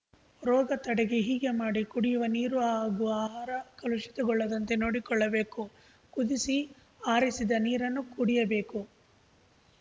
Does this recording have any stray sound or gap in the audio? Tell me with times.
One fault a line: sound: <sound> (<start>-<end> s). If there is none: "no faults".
no faults